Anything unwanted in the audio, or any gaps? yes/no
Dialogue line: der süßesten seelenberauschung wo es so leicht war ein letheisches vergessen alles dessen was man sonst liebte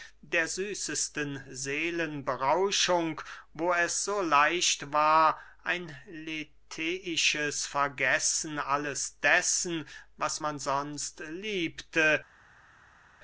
no